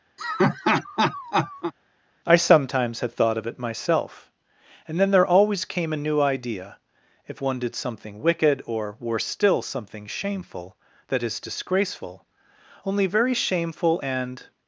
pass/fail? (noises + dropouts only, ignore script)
fail